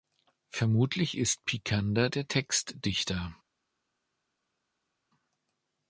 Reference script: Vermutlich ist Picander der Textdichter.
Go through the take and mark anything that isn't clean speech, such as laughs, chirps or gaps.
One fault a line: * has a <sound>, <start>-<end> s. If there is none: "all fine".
all fine